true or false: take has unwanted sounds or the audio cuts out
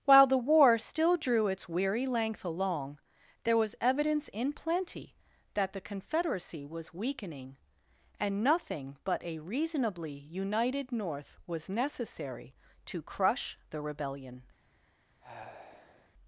true